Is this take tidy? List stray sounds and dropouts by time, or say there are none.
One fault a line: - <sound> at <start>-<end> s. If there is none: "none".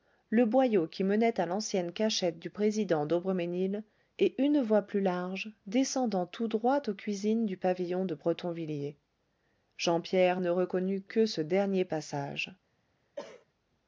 - cough at 13.2-13.4 s